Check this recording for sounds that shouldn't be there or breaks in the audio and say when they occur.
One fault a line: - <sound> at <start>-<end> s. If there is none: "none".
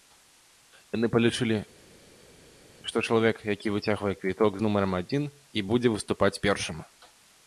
none